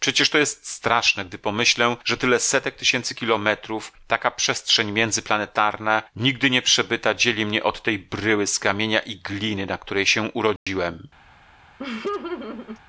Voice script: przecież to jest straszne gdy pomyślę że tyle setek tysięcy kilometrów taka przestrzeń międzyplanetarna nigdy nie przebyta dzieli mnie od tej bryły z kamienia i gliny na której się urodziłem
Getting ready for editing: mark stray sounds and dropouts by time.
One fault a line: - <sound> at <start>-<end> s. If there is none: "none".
- dropout at 10.6-10.7 s
- laugh at 11.8-12.8 s